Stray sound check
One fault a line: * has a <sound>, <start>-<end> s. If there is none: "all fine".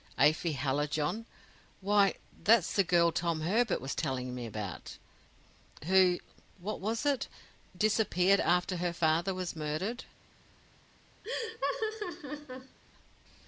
* has a laugh, 11.2-12.8 s